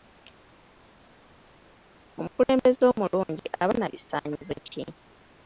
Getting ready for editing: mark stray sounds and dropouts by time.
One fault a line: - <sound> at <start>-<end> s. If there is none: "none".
none